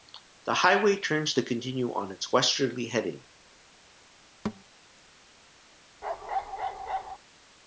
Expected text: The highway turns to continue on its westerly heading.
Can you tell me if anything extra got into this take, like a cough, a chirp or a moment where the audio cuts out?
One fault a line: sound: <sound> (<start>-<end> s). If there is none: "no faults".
sound: thud (4.4-4.6 s)
sound: bark (6.0-7.2 s)